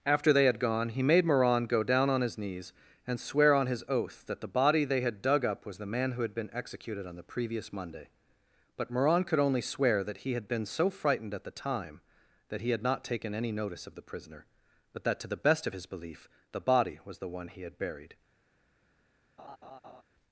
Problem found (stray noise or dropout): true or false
true